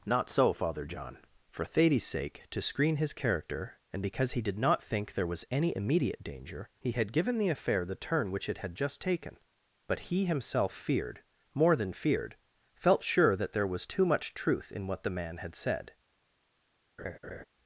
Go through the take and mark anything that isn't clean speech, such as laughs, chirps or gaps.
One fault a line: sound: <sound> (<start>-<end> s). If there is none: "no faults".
sound: laugh (17.0-17.4 s)